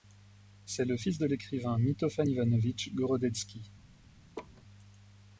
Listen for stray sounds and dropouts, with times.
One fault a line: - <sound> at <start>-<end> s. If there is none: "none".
- laugh at 4.3-4.6 s